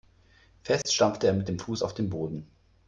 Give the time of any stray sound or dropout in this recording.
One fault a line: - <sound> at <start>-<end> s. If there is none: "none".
- dropout at 0.8-0.9 s